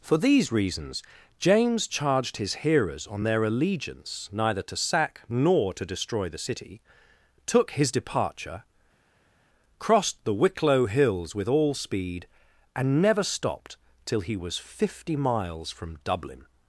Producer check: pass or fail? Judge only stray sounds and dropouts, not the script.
pass